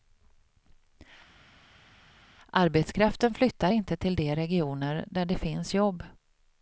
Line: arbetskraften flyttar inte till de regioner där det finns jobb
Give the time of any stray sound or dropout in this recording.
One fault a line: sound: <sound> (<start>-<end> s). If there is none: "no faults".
no faults